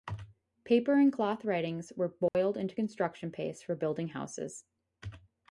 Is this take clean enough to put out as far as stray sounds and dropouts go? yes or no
no